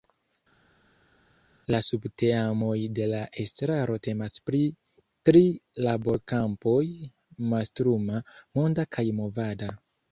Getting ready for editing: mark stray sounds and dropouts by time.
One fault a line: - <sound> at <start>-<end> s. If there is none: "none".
none